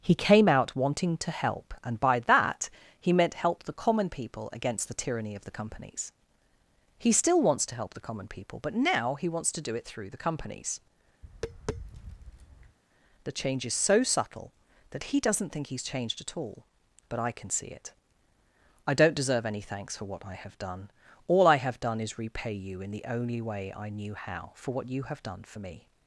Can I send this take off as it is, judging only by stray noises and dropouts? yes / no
no